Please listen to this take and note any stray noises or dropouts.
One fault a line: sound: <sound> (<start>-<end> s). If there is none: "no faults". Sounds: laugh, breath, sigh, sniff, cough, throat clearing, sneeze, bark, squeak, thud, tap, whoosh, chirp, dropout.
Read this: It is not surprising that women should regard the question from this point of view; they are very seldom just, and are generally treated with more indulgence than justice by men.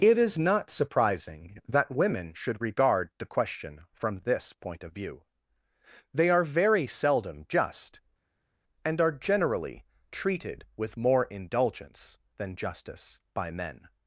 no faults